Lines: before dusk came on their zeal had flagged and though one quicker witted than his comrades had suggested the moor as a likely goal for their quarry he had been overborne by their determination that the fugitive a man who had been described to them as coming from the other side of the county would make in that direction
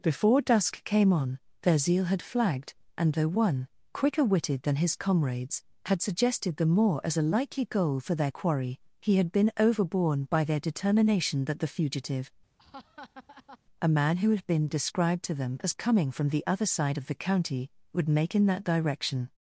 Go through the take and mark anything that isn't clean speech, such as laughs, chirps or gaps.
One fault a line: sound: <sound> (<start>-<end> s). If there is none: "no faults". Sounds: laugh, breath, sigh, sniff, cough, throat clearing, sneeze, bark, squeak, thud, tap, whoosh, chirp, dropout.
sound: laugh (12.6-13.6 s)